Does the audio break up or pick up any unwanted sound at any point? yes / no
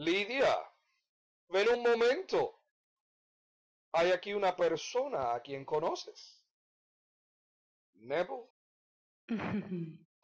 yes